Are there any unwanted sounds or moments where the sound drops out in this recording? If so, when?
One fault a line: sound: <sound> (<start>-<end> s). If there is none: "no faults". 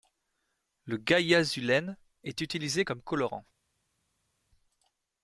no faults